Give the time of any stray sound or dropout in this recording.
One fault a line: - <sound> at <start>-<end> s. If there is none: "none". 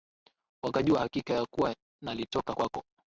none